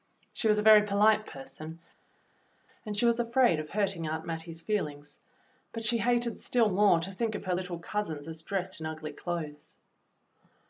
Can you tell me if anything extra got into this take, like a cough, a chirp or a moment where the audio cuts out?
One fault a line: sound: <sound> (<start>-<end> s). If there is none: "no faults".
no faults